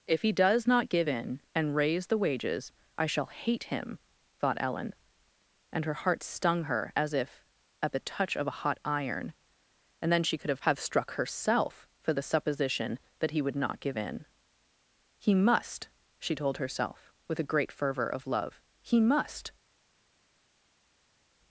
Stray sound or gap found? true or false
false